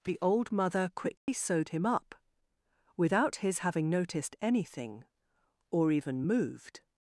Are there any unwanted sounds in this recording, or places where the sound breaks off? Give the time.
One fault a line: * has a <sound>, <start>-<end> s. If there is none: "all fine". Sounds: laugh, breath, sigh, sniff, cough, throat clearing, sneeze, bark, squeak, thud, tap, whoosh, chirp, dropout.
* has a dropout, 1.2-1.3 s